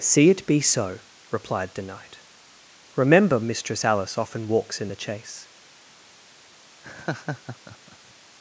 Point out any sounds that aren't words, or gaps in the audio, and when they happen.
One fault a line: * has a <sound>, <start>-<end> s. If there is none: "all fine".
* has a laugh, 6.8-8.1 s